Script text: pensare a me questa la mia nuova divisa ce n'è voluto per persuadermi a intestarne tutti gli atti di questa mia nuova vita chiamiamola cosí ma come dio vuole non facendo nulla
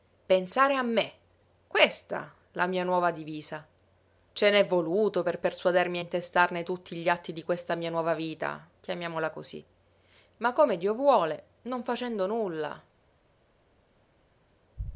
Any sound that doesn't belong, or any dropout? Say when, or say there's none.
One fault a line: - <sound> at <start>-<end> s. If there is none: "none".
none